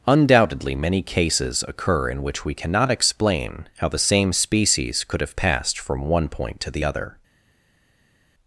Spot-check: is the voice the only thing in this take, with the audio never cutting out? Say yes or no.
yes